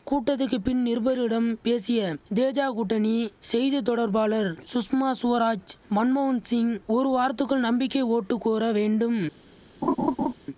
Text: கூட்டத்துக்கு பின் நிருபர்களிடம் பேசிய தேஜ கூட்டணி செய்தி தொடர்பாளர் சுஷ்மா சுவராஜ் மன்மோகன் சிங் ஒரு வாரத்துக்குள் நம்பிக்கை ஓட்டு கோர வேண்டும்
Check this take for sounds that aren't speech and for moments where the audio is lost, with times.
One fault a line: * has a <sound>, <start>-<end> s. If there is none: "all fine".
* has a laugh, 9.8-10.3 s